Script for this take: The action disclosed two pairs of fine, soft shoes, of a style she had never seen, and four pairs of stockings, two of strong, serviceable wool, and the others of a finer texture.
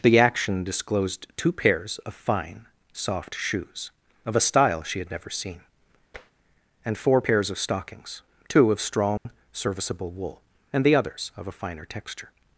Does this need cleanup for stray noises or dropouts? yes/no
yes